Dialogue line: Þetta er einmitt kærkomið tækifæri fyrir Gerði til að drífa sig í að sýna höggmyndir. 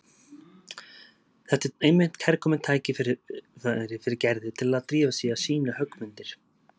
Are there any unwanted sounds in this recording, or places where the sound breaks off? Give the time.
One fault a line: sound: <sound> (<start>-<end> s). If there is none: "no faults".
no faults